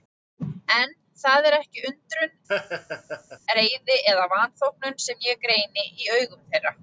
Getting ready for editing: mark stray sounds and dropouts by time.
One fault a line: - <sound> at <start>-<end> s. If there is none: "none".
- laugh at 2.5-3.4 s